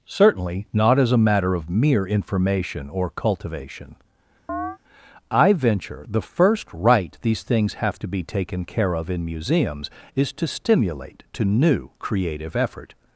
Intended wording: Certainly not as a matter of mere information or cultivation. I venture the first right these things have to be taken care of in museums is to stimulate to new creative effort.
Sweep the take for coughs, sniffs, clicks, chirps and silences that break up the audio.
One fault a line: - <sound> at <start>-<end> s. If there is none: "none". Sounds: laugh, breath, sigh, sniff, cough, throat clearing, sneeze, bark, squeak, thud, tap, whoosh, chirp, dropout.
- chirp at 4.5-4.8 s